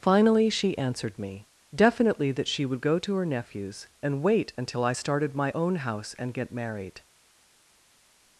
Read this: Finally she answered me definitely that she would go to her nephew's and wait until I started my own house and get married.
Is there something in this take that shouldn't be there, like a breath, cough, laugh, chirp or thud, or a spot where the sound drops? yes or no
no